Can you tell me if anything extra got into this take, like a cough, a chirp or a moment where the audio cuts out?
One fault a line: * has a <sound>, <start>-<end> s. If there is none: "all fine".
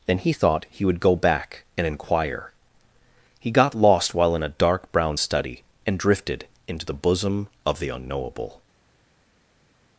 all fine